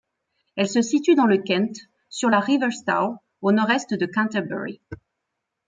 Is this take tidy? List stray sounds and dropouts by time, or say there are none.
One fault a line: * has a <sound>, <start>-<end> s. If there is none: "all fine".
all fine